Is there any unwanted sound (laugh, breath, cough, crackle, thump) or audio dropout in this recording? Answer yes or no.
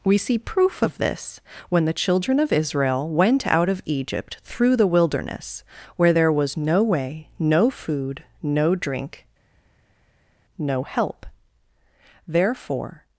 no